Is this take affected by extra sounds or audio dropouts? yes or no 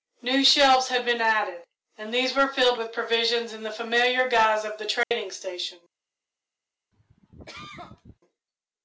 yes